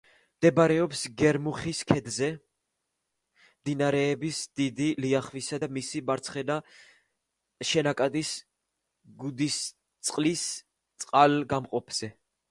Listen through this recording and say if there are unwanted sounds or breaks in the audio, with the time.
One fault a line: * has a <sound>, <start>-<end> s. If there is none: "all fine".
all fine